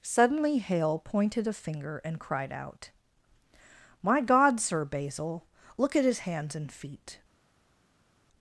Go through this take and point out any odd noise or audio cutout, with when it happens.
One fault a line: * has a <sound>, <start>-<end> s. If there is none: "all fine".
all fine